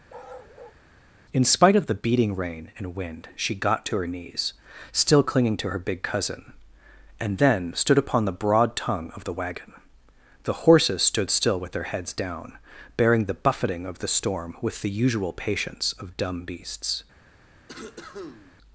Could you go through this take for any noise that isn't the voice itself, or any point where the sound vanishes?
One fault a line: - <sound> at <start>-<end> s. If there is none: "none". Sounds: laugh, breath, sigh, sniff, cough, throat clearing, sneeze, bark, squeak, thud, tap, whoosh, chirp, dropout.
- bark at 0.1-0.8 s
- cough at 17.7-18.6 s